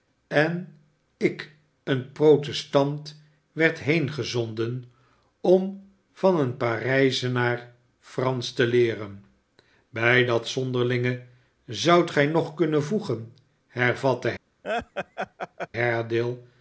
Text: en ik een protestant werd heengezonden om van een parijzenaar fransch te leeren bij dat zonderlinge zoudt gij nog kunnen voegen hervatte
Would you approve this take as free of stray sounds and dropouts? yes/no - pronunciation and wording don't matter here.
no